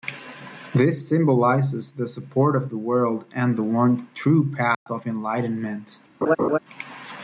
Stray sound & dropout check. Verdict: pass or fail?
fail